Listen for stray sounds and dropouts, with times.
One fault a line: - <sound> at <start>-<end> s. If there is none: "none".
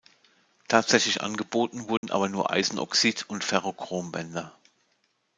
- dropout at 2.0-2.0 s